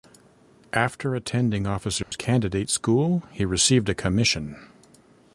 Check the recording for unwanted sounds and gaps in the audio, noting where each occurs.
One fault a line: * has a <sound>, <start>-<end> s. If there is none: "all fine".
* has a dropout, 2.0-2.1 s